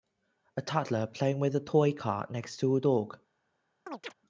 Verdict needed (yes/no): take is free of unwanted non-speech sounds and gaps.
no